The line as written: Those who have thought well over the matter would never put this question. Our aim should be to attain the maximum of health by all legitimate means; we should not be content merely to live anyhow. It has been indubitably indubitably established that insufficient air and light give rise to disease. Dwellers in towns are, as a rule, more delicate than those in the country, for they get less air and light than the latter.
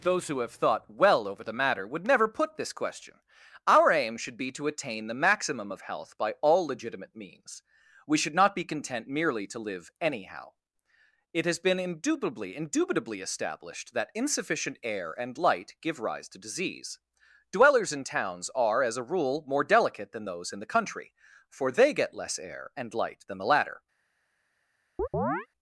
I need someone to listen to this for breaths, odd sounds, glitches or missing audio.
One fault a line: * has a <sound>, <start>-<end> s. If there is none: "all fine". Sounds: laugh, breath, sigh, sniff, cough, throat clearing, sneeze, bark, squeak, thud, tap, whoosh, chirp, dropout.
* has a chirp, 25.0-25.5 s